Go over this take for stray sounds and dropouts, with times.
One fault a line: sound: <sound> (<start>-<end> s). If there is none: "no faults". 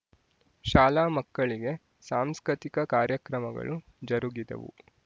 no faults